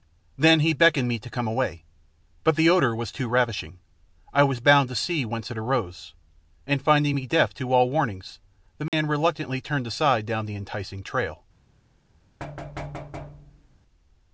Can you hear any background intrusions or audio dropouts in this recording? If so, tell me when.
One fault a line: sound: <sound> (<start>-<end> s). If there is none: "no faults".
sound: dropout (8.9-8.9 s)
sound: thud (12.4-13.8 s)